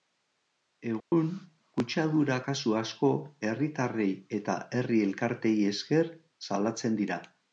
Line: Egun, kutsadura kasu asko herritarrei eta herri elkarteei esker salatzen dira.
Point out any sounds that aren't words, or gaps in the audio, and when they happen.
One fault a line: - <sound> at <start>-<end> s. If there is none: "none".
- dropout at 1.0-1.1 s